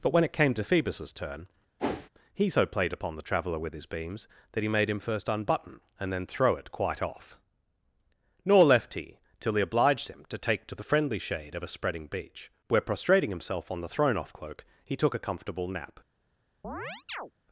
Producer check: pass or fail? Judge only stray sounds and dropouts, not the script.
fail